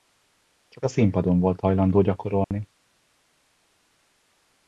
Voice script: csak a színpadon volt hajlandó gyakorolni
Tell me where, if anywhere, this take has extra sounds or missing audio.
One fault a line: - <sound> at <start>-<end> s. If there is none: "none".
- dropout at 2.4-2.5 s